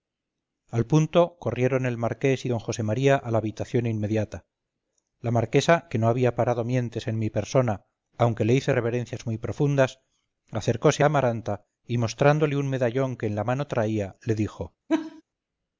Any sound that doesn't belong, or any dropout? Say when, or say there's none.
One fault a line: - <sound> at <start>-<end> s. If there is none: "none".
- laugh at 14.9-15.2 s